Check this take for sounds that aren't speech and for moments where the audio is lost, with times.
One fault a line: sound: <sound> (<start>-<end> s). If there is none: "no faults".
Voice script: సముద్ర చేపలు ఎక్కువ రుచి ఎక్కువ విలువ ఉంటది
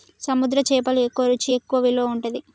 no faults